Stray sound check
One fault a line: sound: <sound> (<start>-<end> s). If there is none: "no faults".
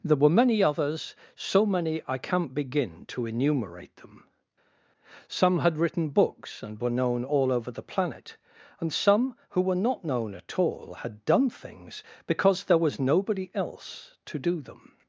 no faults